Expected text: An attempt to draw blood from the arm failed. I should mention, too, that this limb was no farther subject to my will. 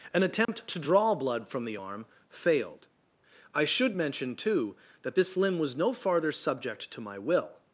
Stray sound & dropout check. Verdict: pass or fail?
fail